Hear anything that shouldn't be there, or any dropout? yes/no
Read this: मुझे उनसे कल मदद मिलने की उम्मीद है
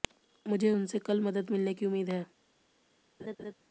yes